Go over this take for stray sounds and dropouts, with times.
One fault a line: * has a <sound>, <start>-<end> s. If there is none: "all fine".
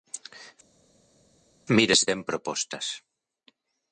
all fine